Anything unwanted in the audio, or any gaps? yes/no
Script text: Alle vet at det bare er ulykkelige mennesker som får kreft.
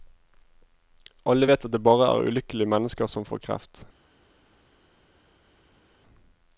no